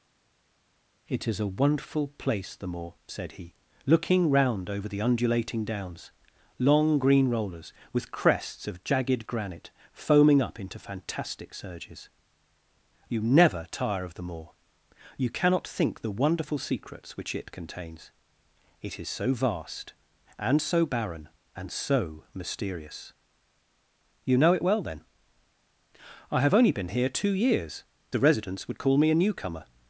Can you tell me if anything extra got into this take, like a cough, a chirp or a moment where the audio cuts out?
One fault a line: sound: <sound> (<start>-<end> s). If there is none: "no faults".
no faults